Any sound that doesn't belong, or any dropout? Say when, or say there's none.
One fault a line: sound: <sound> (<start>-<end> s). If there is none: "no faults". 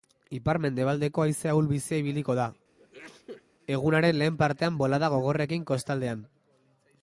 sound: sneeze (2.8-3.4 s)